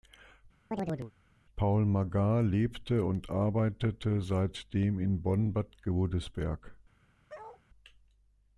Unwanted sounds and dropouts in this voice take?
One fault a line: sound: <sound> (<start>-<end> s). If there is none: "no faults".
sound: chirp (0.7-1.1 s)
sound: bark (7.3-7.6 s)